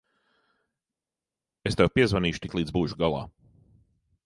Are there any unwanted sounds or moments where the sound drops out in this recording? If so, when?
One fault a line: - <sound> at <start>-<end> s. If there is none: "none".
none